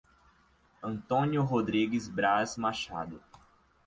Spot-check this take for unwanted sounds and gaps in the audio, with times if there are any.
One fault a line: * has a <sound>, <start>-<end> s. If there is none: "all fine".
all fine